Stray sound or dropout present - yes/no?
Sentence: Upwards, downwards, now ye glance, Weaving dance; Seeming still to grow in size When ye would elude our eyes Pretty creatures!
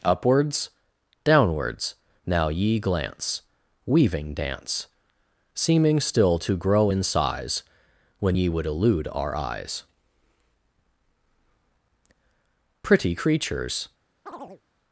yes